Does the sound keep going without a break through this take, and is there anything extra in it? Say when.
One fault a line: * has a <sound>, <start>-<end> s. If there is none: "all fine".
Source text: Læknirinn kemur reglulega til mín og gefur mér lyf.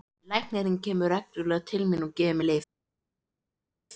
all fine